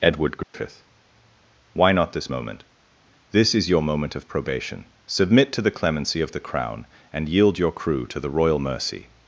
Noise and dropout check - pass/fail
fail